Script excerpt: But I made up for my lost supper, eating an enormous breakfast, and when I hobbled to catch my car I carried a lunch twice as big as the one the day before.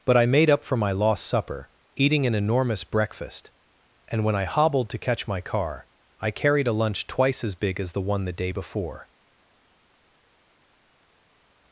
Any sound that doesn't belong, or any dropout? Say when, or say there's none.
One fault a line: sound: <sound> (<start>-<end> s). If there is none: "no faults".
no faults